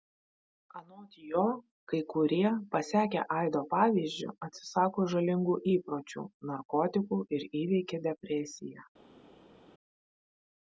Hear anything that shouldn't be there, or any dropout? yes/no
no